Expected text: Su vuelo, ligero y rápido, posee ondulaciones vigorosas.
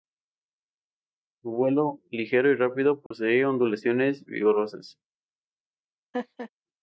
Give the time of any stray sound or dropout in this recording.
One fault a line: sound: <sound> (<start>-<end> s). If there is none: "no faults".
sound: dropout (3.1-3.1 s)
sound: laugh (6.1-6.5 s)